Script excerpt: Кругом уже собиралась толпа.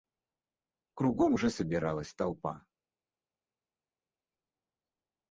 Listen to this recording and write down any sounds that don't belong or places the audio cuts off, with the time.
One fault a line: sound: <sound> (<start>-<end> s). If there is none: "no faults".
no faults